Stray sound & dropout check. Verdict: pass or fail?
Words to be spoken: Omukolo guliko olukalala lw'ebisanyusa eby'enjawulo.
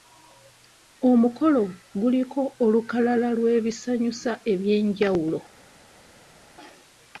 pass